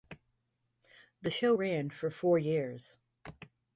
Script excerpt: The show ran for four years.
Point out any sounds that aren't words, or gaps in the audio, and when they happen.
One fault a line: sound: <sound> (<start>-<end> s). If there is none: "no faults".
no faults